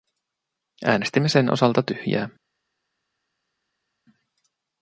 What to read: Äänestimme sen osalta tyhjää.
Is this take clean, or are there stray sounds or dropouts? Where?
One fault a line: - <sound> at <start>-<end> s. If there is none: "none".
none